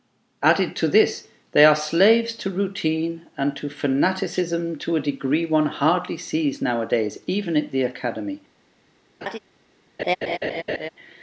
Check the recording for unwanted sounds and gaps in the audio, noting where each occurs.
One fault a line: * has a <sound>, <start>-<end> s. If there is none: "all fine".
* has a laugh, 9.2-9.4 s
* has a laugh, 10.0-10.9 s